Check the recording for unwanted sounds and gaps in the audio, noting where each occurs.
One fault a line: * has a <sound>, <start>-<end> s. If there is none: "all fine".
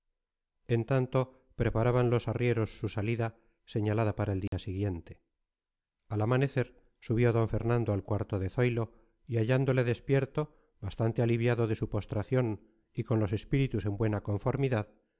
* has a dropout, 4.5-4.5 s